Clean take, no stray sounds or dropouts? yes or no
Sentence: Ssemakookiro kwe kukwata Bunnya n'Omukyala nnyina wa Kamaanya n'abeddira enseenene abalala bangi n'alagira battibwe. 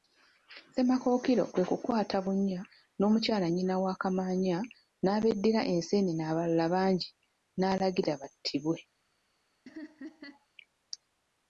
no